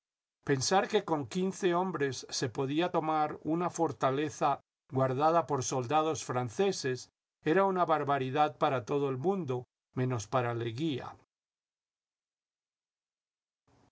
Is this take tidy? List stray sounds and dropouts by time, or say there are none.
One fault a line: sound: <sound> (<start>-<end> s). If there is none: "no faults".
no faults